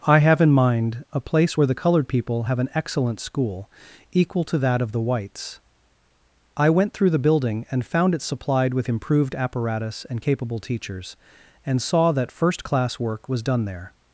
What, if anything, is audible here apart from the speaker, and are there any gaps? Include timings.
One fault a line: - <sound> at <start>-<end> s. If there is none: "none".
none